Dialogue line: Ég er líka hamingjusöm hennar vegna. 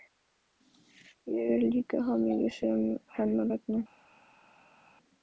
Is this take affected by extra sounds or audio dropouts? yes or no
no